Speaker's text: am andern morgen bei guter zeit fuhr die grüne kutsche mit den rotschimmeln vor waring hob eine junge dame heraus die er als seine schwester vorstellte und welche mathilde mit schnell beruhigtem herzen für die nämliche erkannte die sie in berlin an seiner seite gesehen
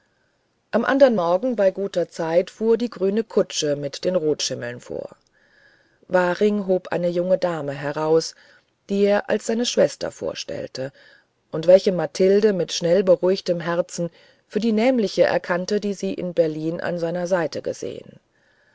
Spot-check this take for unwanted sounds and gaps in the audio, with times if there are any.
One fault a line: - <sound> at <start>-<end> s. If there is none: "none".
none